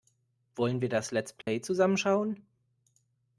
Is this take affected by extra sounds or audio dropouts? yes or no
yes